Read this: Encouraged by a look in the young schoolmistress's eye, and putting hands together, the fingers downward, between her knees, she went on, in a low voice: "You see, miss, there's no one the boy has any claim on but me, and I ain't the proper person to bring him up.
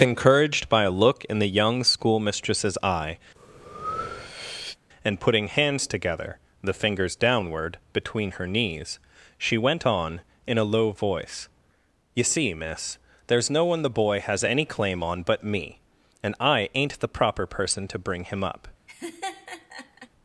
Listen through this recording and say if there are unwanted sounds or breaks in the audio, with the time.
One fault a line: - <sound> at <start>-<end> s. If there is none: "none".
- breath at 3.3-4.8 s
- laugh at 18.9-20.1 s